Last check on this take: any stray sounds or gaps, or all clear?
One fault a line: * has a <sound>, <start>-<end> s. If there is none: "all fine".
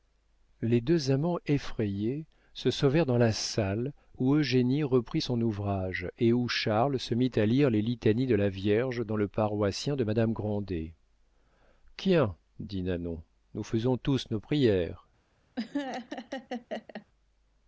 * has a laugh, 15.6-17.1 s